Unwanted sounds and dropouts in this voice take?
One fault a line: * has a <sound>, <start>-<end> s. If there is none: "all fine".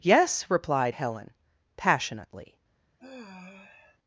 * has a sigh, 3.0-4.0 s